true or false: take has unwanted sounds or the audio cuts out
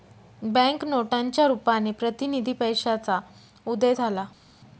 false